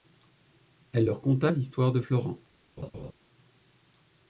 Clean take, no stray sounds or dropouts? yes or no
no